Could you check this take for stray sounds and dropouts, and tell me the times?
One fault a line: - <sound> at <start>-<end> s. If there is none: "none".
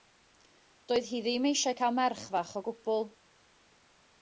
none